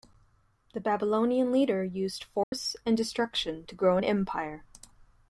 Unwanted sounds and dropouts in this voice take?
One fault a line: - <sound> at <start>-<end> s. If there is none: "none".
- dropout at 2.4-2.5 s